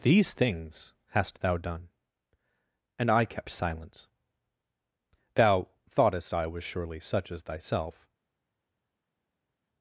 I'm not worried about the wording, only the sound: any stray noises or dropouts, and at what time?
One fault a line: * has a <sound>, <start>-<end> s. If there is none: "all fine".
all fine